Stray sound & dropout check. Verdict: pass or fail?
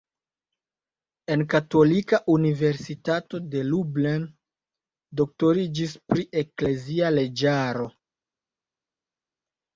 pass